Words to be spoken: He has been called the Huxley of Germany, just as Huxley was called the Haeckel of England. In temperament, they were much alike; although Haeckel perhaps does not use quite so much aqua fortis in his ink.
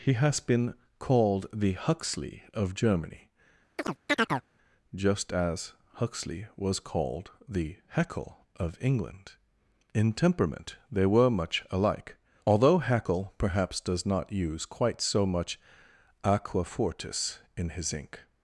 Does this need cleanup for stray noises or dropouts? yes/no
yes